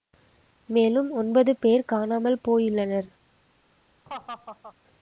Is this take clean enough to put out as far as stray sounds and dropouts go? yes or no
no